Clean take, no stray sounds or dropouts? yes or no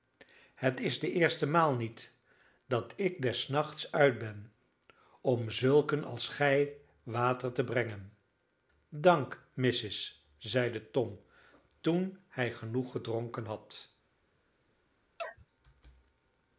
no